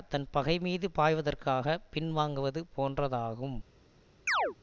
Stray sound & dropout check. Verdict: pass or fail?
fail